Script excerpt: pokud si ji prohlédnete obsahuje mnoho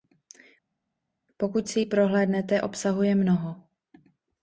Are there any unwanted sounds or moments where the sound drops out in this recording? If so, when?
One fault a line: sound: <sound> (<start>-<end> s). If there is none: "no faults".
no faults